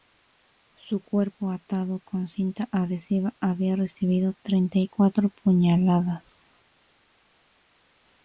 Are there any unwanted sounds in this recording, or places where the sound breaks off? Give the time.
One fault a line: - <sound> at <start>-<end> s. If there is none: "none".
none